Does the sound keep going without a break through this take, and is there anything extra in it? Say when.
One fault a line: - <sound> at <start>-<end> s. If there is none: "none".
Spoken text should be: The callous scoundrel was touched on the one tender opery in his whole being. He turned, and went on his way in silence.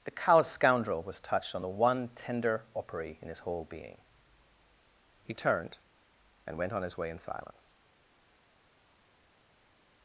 none